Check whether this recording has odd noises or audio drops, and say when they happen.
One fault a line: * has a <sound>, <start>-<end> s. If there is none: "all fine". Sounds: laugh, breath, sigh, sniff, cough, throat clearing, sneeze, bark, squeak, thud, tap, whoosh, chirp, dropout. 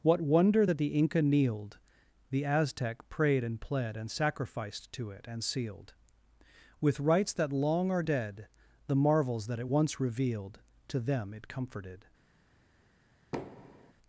* has a thud, 13.3-13.9 s